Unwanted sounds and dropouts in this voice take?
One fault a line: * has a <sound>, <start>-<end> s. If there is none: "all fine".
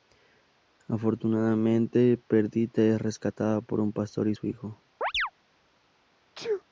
* has a chirp, 5.0-5.3 s
* has a sneeze, 6.4-6.6 s